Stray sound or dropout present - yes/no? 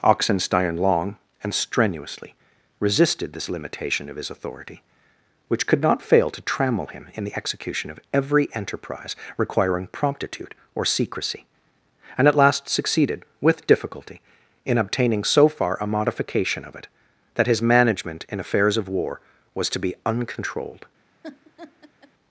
yes